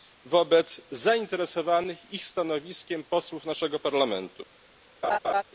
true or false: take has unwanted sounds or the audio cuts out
true